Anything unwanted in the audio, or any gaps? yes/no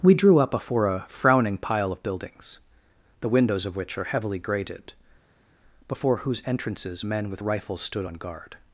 no